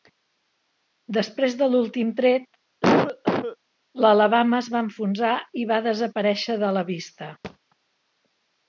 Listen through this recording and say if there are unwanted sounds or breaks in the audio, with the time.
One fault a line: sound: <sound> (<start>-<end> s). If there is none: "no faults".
sound: cough (2.8-3.6 s)
sound: thud (7.4-7.6 s)